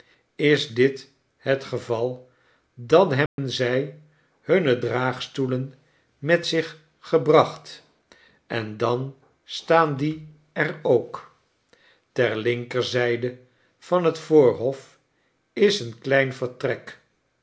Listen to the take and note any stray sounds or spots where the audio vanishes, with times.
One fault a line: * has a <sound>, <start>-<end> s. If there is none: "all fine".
* has a dropout, 3.3-3.4 s